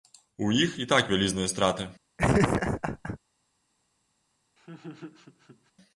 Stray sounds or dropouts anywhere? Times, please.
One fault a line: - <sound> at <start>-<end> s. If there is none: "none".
- laugh at 2.2-3.2 s
- laugh at 4.6-5.7 s